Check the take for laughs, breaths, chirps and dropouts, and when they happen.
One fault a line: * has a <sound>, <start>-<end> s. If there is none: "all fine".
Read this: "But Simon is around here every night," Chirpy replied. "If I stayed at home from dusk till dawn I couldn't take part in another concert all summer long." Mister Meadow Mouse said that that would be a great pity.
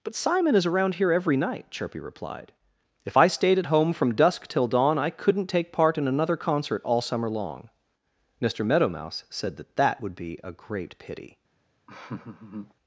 * has a laugh, 11.9-12.7 s